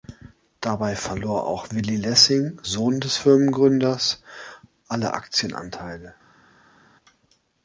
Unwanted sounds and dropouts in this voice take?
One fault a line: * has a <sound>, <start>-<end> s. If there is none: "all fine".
all fine